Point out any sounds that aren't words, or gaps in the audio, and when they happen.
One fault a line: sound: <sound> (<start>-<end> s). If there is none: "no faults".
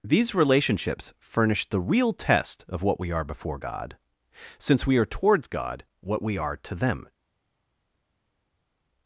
no faults